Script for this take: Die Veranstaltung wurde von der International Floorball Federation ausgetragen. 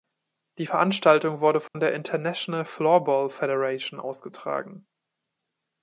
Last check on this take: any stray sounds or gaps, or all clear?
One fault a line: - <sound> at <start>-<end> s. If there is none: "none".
- dropout at 1.7-1.7 s